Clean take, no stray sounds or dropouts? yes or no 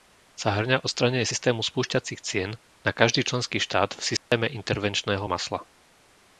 no